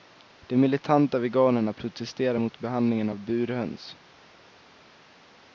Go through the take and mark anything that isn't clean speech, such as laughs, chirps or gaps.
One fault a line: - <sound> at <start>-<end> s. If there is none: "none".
none